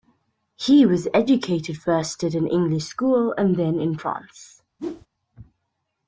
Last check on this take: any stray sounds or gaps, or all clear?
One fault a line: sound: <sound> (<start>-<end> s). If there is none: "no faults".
sound: whoosh (4.8-5.1 s)